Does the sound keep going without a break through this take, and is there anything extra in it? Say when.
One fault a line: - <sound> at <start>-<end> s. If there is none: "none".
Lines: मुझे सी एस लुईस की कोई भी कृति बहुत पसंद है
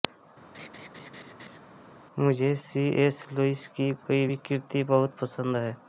- laugh at 0.5-1.6 s